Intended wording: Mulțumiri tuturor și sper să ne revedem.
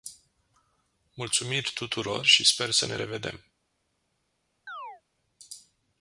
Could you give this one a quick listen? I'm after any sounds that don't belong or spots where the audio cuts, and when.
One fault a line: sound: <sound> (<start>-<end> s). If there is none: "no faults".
sound: chirp (4.7-5.0 s)